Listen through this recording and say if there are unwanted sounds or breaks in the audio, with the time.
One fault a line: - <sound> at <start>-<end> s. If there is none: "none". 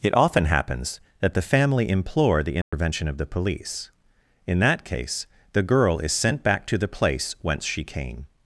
- dropout at 2.6-2.7 s